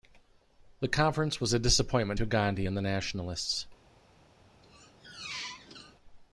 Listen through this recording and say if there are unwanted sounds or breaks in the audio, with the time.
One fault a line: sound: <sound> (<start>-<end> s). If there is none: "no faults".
sound: squeak (4.6-6.0 s)